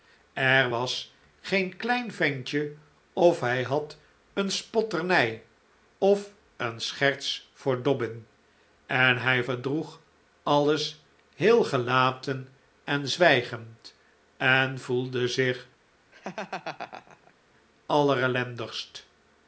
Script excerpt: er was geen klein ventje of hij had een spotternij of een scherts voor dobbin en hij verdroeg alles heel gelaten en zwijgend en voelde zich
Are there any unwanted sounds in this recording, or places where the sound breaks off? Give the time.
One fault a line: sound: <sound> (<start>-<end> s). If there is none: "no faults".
sound: laugh (16.1-17.3 s)